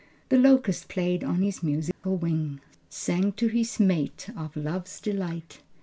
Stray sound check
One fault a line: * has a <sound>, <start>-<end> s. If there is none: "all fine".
* has a dropout, 1.9-2.0 s